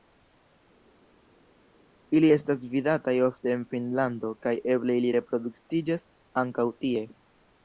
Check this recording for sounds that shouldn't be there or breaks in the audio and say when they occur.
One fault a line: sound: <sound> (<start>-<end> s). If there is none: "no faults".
no faults